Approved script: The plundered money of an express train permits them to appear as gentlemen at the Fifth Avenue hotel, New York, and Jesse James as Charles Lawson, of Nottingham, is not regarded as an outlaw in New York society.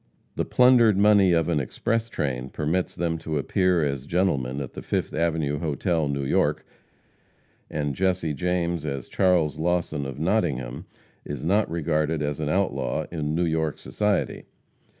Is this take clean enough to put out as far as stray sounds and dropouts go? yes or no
yes